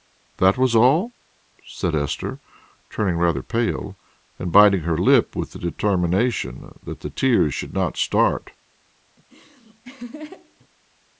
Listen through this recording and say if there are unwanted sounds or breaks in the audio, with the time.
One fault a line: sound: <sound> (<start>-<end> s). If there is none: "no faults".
sound: laugh (9.2-10.7 s)